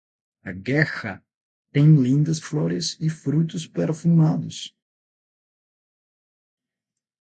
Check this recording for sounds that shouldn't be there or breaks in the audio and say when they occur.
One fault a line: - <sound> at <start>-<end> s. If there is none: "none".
none